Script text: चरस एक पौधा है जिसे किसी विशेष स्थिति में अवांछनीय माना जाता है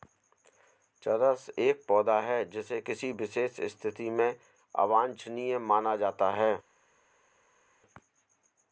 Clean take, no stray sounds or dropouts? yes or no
yes